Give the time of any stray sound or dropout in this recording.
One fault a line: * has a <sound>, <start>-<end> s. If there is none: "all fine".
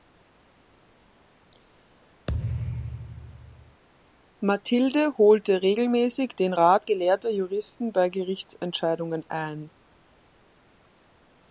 * has a thud, 2.3-3.8 s